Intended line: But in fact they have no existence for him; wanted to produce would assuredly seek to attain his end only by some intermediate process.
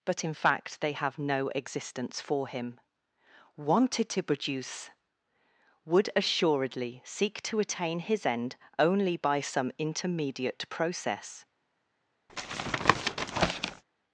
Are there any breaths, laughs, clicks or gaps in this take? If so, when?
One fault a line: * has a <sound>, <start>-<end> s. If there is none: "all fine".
* has a tap, 12.3-13.8 s